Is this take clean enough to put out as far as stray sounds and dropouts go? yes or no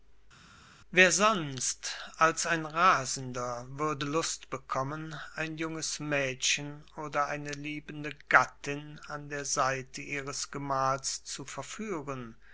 yes